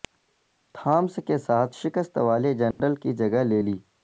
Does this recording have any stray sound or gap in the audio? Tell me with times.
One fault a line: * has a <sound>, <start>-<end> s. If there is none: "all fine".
* has a dropout, 2.7-2.8 s